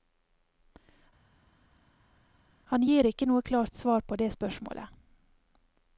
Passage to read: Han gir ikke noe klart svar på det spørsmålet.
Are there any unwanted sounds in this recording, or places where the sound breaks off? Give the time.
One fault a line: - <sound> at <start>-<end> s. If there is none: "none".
none